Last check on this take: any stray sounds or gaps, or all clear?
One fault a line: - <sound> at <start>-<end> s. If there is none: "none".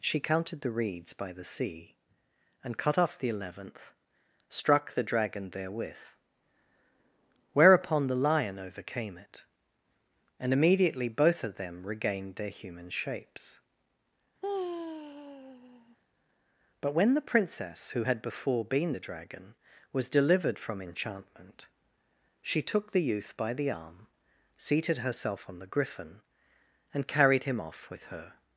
- sigh at 14.4-16.0 s